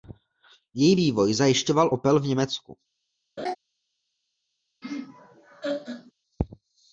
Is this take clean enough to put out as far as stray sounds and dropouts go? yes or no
no